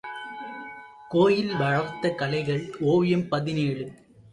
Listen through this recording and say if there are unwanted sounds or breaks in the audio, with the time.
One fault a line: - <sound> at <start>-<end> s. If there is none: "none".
none